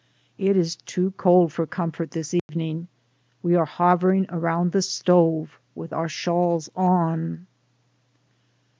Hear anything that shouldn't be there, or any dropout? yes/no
yes